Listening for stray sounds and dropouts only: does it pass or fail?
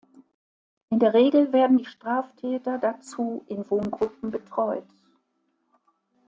pass